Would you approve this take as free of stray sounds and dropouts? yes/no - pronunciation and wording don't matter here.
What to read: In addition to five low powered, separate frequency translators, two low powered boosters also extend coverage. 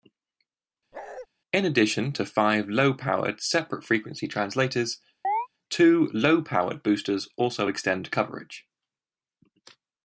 no